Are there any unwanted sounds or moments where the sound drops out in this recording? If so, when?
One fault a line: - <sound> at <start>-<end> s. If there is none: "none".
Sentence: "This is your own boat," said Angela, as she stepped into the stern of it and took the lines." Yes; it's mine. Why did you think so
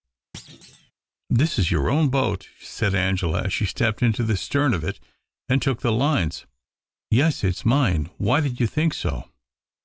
- thud at 0.3-0.9 s